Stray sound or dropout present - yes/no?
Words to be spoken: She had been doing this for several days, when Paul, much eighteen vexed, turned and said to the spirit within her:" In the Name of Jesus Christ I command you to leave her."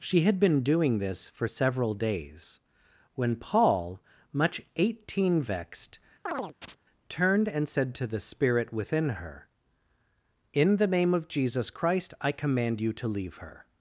yes